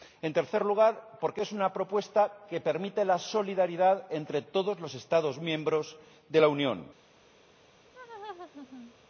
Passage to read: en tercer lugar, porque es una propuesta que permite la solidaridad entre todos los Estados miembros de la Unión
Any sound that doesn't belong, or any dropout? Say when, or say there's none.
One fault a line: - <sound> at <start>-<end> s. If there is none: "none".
- laugh at 7.9-8.9 s